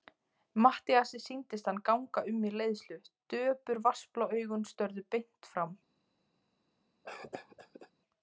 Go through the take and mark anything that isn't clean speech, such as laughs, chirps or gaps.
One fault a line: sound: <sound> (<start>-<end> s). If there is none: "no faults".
sound: cough (7.0-7.9 s)